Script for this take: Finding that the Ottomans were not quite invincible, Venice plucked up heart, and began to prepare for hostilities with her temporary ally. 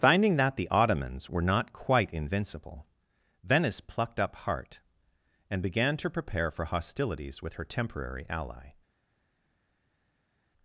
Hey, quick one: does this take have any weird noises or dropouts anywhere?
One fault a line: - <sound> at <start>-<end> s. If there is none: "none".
none